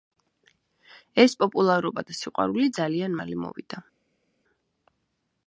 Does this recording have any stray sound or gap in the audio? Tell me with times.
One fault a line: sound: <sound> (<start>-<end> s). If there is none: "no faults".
no faults